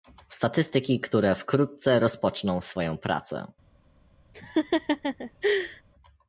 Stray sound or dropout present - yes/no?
yes